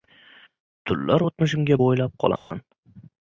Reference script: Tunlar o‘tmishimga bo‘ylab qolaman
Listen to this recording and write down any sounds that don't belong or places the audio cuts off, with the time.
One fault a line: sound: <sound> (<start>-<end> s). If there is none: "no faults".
sound: dropout (2.4-2.5 s)